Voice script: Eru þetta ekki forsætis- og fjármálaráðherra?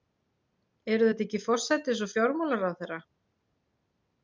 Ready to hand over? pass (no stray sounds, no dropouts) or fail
pass